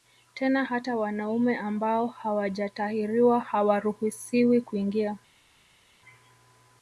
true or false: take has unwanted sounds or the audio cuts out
false